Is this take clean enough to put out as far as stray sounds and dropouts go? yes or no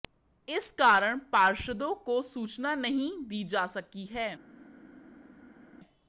yes